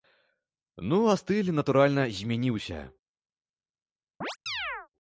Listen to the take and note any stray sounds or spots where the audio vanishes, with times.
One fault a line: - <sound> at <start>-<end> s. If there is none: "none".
- chirp at 4.2-4.9 s